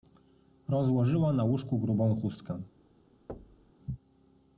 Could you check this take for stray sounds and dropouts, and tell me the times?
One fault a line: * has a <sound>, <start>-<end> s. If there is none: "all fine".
* has a thud, 3.3-3.7 s